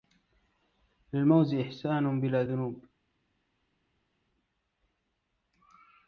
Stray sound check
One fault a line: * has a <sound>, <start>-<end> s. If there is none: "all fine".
all fine